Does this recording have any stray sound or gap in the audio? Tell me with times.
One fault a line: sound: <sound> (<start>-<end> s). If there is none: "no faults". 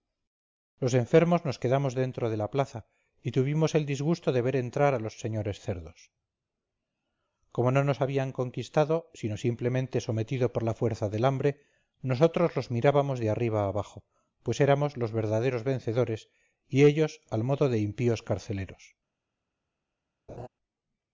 sound: laugh (20.3-20.5 s)